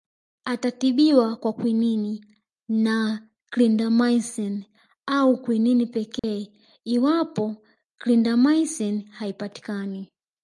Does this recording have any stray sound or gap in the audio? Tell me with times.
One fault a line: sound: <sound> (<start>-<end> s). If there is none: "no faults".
sound: dropout (6.2-6.2 s)